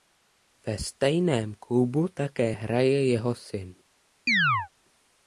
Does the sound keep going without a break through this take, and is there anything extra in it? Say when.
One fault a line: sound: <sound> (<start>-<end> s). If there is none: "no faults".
sound: chirp (4.3-4.7 s)